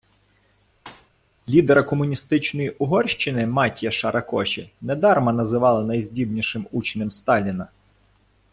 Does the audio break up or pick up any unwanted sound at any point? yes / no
yes